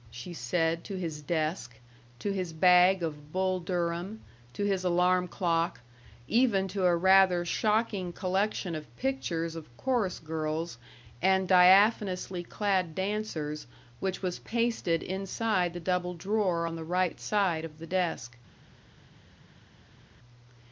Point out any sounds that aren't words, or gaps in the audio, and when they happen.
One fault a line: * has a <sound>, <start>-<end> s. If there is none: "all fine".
all fine